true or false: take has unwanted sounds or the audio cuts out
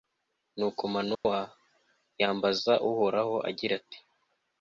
true